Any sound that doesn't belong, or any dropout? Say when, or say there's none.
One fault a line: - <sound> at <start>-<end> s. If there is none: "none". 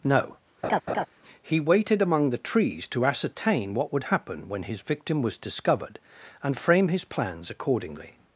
- laugh at 0.6-1.1 s